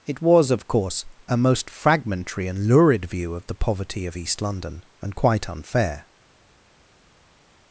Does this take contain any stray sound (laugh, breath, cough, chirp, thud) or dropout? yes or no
no